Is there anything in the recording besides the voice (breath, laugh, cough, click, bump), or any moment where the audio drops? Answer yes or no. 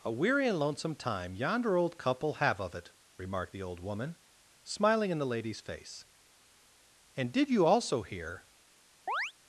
yes